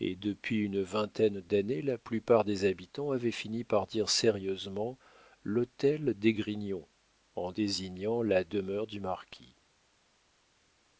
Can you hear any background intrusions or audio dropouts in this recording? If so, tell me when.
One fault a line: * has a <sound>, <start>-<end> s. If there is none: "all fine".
all fine